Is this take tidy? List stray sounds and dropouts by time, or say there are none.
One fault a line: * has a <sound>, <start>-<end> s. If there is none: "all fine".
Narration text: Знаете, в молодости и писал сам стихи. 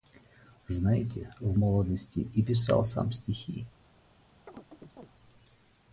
* has a chirp, 4.5-5.1 s